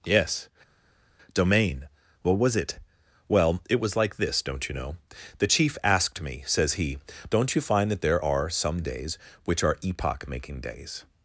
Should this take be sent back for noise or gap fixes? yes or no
no